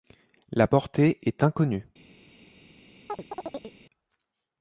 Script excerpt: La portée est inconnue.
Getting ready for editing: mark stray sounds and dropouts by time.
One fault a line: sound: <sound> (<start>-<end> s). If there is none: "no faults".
sound: chirp (3.1-3.8 s)